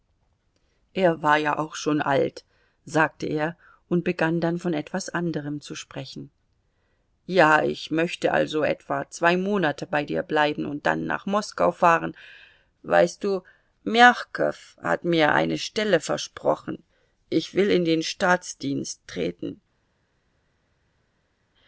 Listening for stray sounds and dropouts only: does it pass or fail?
pass